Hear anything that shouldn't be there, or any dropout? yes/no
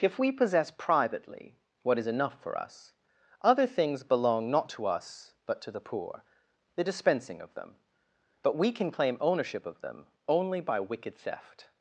no